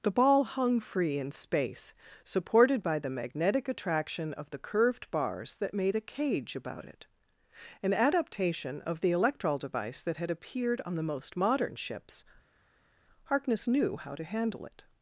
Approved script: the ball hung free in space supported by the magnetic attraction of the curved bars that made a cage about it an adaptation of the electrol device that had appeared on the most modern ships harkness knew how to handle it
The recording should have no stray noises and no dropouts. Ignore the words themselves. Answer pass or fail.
pass